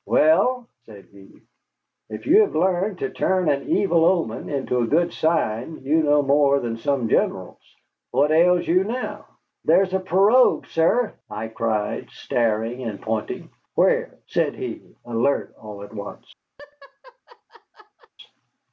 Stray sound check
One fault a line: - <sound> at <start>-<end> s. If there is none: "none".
- laugh at 16.6-18.1 s